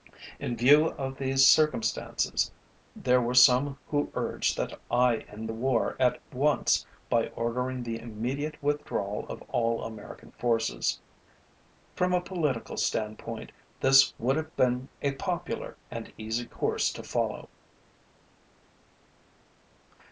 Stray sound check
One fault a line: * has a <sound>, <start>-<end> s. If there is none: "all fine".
all fine